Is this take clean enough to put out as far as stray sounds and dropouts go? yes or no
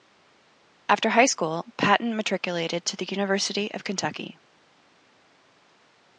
yes